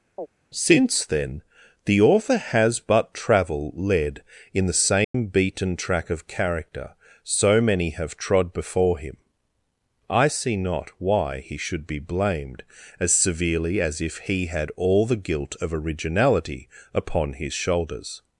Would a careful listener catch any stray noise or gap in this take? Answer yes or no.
yes